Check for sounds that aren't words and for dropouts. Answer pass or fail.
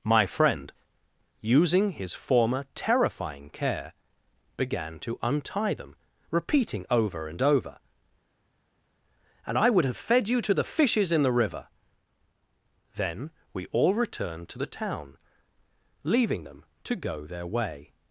pass